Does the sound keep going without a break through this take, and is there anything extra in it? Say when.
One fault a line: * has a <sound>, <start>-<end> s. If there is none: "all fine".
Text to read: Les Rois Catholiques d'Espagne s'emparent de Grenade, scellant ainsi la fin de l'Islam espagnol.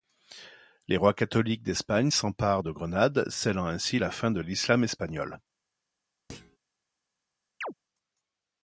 * has a thud, 6.3-6.6 s
* has a chirp, 7.6-7.7 s